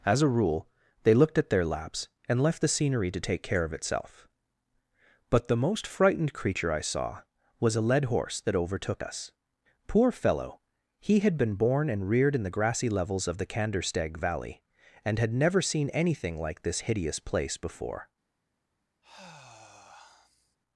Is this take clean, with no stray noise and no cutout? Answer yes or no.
no